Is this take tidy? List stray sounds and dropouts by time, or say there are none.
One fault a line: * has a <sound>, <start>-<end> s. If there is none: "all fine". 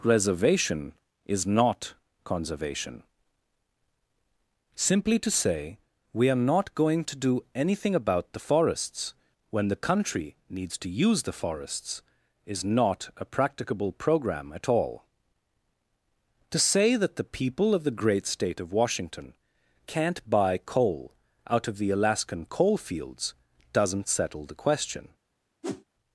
* has a whoosh, 25.6-25.8 s